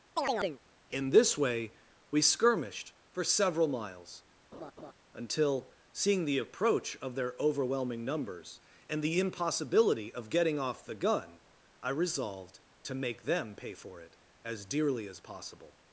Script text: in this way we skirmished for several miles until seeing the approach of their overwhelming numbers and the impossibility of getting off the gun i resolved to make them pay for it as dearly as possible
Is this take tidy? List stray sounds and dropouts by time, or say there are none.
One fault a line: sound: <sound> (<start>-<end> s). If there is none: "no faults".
sound: chirp (0.2-0.6 s)
sound: laugh (4.5-4.9 s)